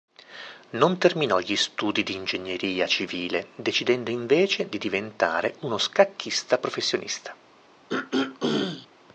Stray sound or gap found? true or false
true